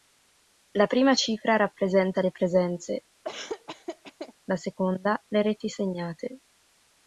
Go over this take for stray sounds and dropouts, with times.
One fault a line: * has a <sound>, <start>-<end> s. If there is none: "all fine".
* has a laugh, 3.2-4.3 s